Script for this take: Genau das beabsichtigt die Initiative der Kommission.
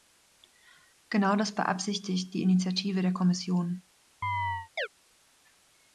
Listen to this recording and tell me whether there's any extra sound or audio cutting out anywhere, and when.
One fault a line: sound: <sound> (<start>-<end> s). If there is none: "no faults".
sound: chirp (4.2-4.9 s)